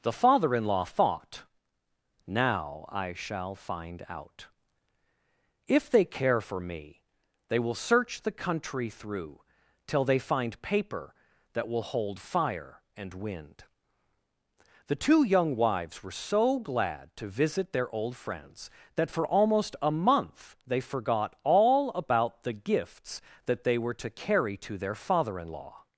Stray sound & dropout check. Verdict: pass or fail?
pass